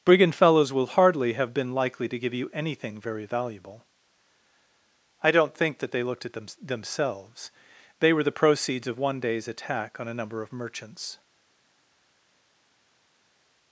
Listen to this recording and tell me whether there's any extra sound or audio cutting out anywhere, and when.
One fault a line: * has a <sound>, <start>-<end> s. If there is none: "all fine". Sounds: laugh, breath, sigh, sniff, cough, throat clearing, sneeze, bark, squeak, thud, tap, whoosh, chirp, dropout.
all fine